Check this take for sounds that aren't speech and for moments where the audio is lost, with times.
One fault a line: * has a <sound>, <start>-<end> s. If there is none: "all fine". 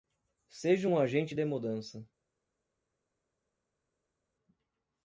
all fine